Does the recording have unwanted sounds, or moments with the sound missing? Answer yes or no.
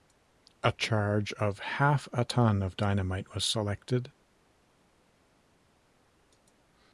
no